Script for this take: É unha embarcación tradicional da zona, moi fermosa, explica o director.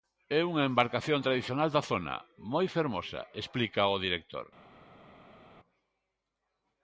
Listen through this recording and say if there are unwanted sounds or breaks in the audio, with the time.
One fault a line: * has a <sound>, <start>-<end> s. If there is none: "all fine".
all fine